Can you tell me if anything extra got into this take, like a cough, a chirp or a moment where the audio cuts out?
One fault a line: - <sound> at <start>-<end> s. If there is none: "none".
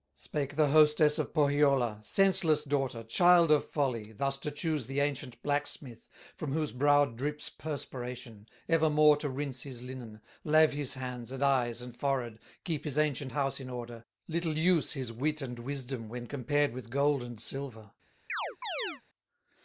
- chirp at 18.3-19.0 s